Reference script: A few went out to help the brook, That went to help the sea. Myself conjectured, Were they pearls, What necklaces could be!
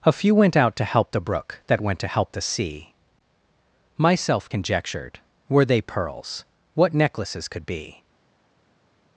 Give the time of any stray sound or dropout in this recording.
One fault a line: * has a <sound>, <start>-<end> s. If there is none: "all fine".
all fine